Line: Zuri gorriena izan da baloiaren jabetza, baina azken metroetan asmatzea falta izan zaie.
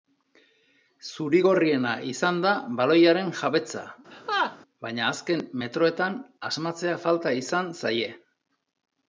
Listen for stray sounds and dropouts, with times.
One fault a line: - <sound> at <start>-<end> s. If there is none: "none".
- laugh at 4.1-4.6 s